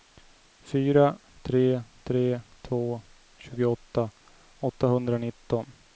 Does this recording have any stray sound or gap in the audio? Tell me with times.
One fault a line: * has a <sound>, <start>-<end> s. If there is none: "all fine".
all fine